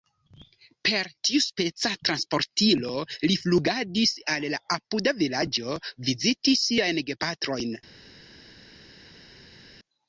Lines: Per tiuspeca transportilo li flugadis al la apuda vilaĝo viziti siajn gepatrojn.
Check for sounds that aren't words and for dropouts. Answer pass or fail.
pass